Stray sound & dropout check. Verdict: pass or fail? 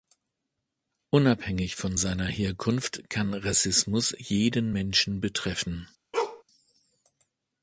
fail